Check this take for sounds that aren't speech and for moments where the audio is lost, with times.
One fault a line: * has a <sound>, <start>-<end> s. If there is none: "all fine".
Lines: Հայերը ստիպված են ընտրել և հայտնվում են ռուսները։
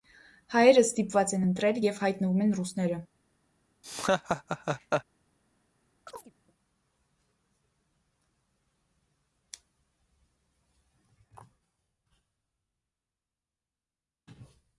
* has a laugh, 3.8-5.0 s
* has a chirp, 6.1-6.3 s